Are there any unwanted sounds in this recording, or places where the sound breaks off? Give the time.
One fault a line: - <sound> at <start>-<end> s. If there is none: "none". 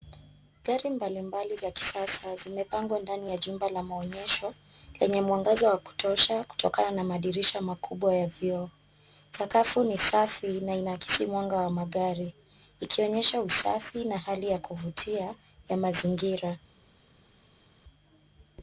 none